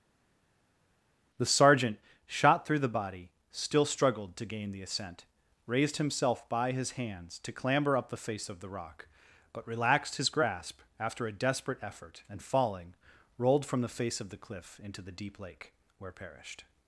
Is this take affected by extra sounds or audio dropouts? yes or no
no